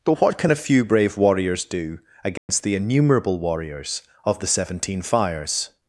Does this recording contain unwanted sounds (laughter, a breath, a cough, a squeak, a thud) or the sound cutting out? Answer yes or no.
yes